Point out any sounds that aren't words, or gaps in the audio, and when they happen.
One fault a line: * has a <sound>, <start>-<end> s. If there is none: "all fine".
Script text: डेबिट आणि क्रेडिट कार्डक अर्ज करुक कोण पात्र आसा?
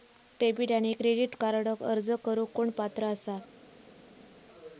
all fine